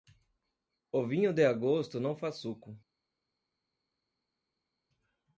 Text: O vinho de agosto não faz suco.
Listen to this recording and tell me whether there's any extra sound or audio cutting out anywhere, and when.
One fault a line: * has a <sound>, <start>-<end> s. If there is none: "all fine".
all fine